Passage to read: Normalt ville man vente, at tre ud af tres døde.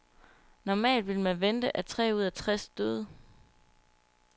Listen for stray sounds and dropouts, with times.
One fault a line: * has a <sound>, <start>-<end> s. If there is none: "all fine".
all fine